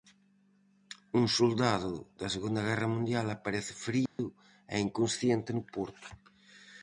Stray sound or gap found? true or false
true